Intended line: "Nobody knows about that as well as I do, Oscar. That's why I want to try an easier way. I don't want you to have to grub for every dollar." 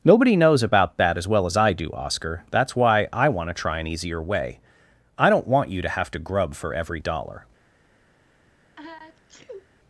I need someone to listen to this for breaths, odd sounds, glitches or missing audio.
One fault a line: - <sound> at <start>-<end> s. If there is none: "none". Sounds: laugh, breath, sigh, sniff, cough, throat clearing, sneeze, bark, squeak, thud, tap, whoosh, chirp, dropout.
- sneeze at 8.8-9.7 s